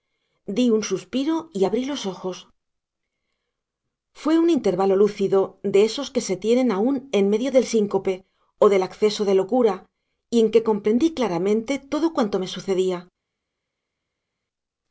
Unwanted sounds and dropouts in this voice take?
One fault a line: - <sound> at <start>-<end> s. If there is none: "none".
none